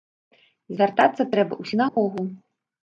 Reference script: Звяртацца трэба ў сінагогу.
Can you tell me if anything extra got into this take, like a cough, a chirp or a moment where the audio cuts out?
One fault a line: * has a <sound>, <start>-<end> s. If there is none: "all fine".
* has a dropout, 1.9-2.0 s